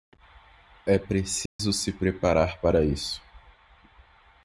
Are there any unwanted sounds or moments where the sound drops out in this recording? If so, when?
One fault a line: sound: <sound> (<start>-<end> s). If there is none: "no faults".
sound: dropout (1.5-1.6 s)